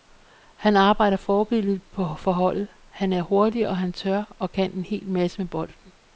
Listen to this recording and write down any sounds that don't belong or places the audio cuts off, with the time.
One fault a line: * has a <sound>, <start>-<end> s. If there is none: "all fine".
all fine